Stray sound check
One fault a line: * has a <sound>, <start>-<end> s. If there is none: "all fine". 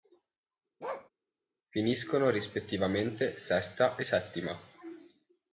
* has a bark, 0.8-1.1 s